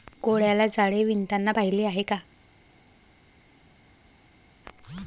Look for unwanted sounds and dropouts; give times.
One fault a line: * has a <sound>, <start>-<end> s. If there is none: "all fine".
all fine